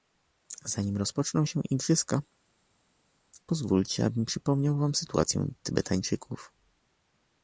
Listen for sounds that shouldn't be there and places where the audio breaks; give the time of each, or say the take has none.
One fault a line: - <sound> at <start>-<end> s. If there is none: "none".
none